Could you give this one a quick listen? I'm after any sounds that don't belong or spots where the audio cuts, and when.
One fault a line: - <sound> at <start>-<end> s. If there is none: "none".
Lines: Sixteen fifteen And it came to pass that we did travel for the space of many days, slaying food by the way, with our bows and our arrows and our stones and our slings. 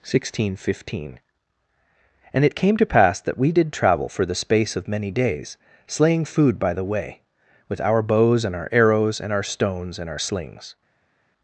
none